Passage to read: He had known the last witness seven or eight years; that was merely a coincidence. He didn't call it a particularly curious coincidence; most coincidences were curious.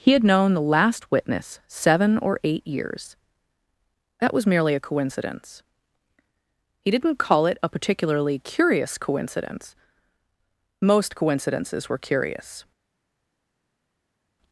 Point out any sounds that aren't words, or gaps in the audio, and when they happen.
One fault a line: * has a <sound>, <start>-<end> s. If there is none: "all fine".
all fine